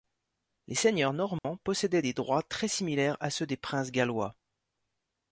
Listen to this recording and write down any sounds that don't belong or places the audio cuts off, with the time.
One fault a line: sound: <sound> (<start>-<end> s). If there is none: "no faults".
sound: dropout (1.4-1.4 s)